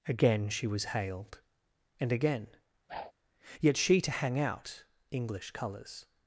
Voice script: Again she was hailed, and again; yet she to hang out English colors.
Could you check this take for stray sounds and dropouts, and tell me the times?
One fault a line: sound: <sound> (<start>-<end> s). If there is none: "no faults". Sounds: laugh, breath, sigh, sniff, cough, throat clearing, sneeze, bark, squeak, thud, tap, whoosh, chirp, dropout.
sound: whoosh (2.9-3.1 s)